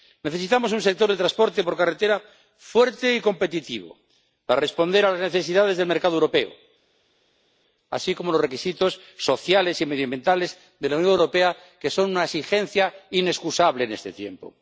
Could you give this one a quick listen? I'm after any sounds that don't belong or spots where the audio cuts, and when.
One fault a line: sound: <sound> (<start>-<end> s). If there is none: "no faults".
no faults